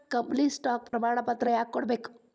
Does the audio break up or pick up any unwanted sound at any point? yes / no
yes